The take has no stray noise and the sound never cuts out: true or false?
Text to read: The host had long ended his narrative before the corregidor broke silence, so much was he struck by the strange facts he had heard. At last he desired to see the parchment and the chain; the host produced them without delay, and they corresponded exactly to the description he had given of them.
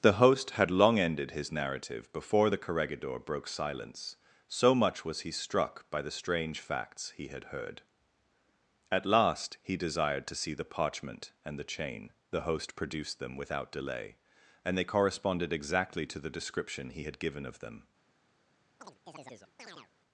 false